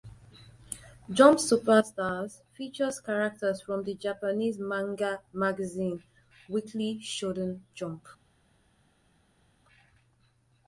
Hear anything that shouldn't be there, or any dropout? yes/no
no